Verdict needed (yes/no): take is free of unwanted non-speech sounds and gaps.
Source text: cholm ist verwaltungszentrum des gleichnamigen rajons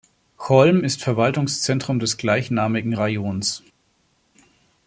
yes